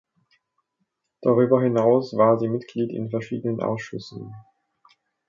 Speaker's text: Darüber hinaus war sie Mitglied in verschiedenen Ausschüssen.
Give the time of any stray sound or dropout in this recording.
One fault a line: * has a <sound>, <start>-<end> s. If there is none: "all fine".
all fine